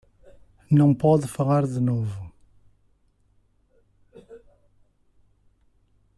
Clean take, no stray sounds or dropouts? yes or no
yes